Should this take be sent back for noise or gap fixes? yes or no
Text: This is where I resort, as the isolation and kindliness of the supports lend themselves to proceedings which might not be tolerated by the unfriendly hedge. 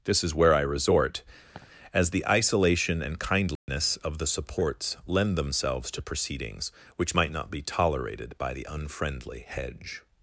yes